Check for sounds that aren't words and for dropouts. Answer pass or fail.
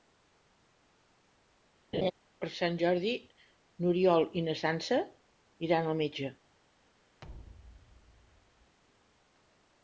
fail